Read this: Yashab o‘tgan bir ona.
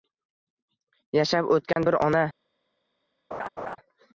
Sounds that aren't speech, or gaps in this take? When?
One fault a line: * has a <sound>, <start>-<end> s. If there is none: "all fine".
* has a dropout, 1.7-1.8 s
* has a laugh, 3.3-3.8 s